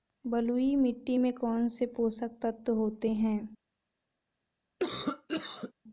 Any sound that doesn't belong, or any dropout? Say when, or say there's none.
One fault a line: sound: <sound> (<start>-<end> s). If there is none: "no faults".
sound: cough (4.8-5.7 s)